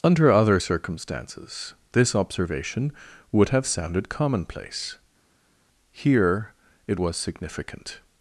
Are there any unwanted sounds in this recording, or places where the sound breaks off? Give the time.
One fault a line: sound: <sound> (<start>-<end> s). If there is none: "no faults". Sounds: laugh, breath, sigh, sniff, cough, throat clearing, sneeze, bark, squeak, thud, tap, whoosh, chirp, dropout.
no faults